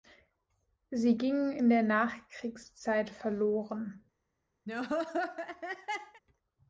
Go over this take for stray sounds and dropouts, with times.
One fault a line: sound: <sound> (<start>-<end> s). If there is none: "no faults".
sound: laugh (4.7-6.2 s)